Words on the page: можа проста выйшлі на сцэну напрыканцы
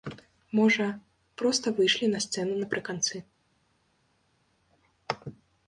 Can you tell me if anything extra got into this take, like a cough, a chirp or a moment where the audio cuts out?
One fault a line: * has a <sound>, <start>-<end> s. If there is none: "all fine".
all fine